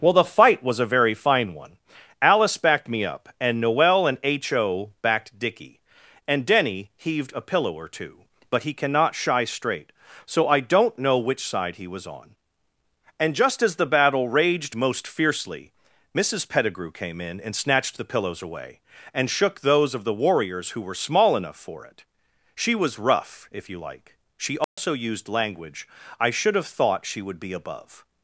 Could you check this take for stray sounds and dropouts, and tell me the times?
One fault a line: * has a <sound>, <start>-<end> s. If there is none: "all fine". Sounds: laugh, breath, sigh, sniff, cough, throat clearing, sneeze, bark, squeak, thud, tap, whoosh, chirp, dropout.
* has a dropout, 24.6-24.8 s